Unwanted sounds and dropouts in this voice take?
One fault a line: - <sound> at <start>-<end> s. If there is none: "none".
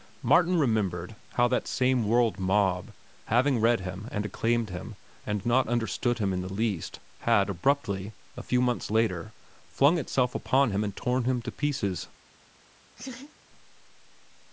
- laugh at 13.0-13.3 s